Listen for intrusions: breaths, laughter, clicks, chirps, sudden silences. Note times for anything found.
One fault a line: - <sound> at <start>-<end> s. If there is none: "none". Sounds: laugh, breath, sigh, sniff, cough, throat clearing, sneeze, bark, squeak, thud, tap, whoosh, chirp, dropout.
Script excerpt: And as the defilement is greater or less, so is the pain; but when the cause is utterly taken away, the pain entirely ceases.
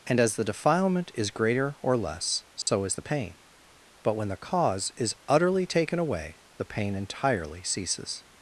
- dropout at 2.6-2.7 s